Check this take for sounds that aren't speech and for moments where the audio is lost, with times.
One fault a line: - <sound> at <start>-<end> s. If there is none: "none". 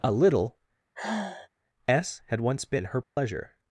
- sigh at 0.9-1.5 s
- dropout at 3.0-3.2 s